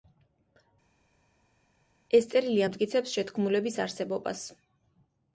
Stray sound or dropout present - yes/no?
no